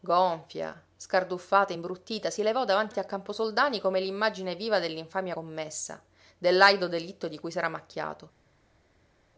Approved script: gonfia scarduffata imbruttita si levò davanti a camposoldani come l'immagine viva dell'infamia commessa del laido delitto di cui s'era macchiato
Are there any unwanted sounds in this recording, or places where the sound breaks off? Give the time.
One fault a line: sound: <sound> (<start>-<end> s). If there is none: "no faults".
no faults